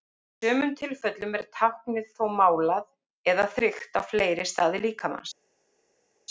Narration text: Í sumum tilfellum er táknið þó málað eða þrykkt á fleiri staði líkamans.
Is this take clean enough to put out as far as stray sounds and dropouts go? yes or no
yes